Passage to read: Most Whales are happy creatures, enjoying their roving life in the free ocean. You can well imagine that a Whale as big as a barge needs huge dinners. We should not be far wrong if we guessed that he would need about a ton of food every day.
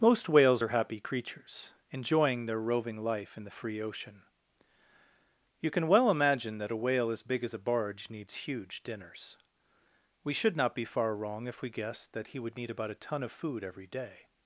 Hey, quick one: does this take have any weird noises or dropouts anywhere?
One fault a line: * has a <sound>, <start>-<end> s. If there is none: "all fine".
all fine